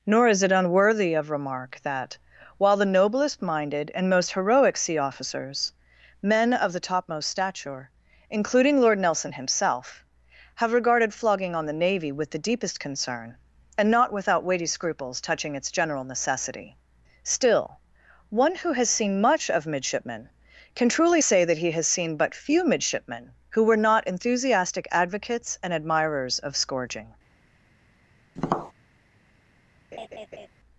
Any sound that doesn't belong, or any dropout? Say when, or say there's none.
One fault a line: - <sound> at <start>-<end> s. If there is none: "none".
- tap at 28.4-28.7 s
- laugh at 29.9-30.5 s